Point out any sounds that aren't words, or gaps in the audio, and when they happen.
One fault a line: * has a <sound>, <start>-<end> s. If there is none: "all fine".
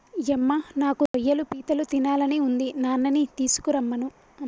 * has a dropout, 1.1-1.1 s